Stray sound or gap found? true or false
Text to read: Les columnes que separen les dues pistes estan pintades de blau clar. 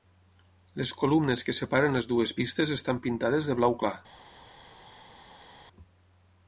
false